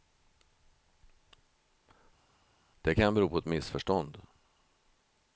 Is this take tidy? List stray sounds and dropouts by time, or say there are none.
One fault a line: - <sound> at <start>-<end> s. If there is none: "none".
none